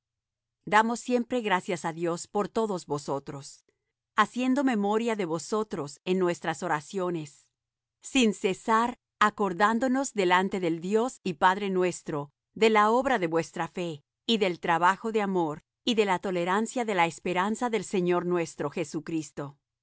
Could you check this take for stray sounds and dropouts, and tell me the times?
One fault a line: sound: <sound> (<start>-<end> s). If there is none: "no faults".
no faults